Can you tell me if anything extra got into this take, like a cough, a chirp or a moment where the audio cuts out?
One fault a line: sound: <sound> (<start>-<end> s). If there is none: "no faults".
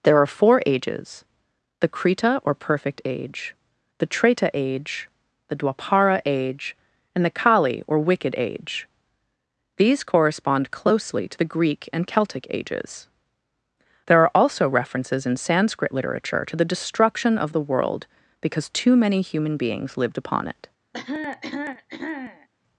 sound: cough (20.9-22.5 s)